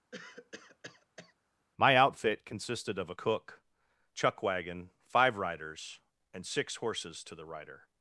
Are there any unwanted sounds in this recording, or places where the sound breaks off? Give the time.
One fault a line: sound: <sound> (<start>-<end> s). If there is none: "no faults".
sound: cough (0.1-1.3 s)